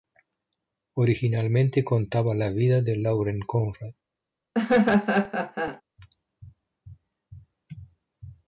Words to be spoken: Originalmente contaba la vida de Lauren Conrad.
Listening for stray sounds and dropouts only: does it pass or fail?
fail